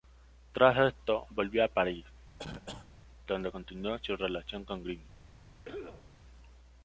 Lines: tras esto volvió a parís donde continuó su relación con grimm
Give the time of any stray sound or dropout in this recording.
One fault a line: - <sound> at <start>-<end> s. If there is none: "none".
- cough at 2.4-2.9 s
- cough at 5.6-6.1 s